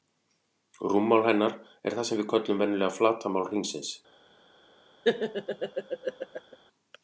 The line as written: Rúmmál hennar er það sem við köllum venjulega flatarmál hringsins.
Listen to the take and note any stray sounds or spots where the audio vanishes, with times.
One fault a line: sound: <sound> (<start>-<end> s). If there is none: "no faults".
sound: laugh (5.0-6.6 s)